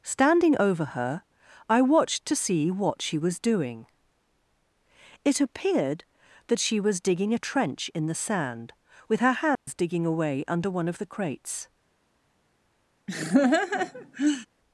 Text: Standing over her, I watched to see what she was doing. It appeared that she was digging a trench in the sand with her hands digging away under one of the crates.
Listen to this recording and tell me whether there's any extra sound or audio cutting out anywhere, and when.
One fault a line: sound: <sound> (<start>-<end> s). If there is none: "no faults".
sound: dropout (9.5-9.7 s)
sound: laugh (13.1-14.5 s)